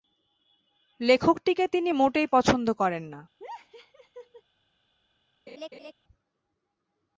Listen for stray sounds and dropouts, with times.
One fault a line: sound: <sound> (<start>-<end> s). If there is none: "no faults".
sound: laugh (3.4-4.4 s)
sound: laugh (5.5-5.9 s)